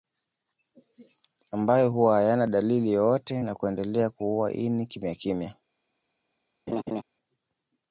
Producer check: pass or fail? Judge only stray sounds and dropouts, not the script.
fail